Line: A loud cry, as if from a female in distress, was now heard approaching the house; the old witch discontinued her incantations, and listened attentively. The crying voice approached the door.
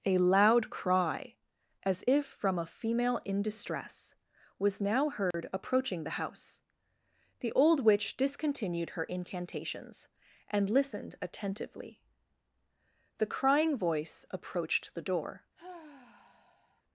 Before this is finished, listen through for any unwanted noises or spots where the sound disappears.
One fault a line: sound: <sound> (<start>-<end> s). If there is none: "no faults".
sound: dropout (5.3-5.3 s)
sound: sigh (15.6-16.8 s)